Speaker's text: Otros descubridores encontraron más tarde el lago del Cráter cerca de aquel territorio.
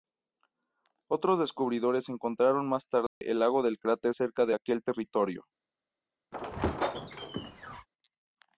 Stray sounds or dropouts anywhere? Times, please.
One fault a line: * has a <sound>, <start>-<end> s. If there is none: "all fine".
* has a dropout, 3.1-3.2 s
* has a squeak, 6.3-7.9 s